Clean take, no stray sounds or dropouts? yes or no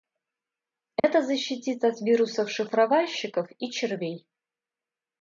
no